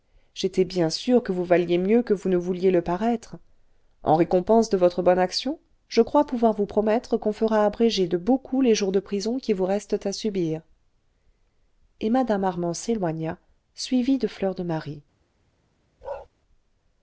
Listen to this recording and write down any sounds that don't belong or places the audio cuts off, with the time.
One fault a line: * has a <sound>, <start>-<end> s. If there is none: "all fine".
* has a bark, 16.0-16.3 s